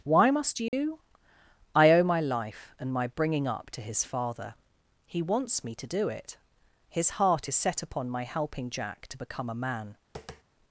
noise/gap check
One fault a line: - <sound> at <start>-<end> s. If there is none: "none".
- dropout at 0.7-0.7 s
- tap at 10.1-10.4 s